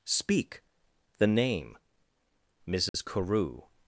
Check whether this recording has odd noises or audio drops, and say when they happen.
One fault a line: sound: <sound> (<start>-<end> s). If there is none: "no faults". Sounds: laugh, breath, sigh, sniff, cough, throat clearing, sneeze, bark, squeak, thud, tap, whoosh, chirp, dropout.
sound: dropout (2.9-2.9 s)